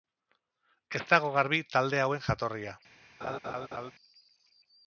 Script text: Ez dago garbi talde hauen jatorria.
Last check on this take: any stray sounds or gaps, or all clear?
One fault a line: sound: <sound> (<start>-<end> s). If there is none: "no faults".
sound: laugh (3.2-3.9 s)